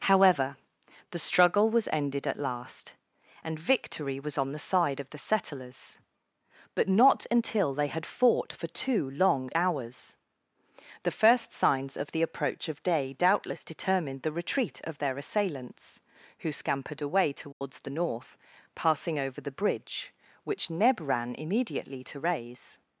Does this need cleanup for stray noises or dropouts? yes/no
yes